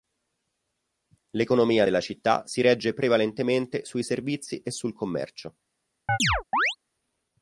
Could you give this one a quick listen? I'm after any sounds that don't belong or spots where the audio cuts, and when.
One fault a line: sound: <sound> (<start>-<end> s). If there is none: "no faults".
sound: chirp (6.1-6.8 s)